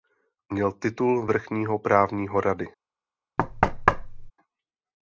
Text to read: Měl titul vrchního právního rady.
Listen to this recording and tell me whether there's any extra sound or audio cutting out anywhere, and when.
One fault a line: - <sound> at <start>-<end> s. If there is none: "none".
- thud at 3.4-4.3 s